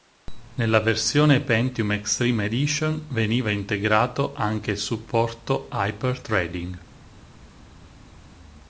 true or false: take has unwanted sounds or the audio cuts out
false